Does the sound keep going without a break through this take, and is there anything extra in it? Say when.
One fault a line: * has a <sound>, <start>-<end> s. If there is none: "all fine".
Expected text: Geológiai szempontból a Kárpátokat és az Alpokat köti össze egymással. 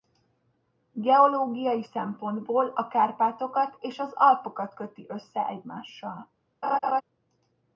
* has a laugh, 6.6-7.0 s